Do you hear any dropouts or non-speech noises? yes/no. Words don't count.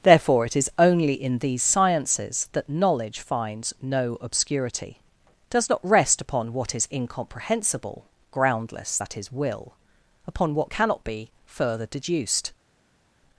no